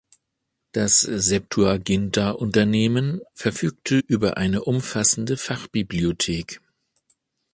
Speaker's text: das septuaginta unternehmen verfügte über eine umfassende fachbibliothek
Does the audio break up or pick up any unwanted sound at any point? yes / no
no